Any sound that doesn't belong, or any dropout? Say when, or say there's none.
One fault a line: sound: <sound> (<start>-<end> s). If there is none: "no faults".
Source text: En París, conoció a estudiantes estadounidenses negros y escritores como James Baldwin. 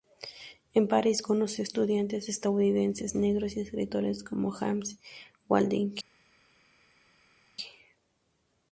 no faults